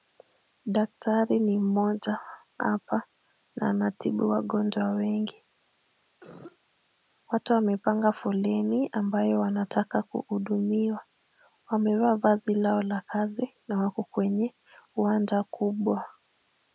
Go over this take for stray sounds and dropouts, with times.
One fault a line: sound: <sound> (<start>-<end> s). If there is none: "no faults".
sound: cough (6.2-6.6 s)